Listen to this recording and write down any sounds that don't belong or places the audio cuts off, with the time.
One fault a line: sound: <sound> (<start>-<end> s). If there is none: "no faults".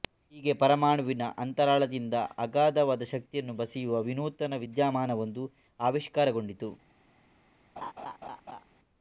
sound: laugh (7.8-8.6 s)